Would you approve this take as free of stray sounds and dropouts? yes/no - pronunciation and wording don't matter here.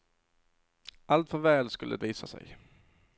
yes